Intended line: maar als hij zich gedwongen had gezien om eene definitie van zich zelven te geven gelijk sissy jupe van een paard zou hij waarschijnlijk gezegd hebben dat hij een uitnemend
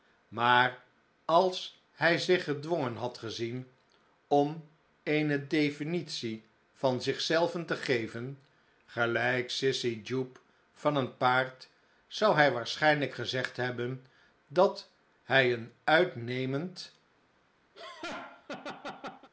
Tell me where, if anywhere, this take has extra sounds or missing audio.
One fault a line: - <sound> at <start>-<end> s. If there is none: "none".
- laugh at 17.7-19.3 s